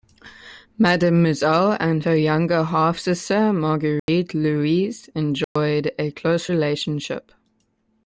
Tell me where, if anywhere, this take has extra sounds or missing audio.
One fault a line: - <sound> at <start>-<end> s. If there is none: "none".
- dropout at 4.0-4.1 s
- dropout at 5.4-5.6 s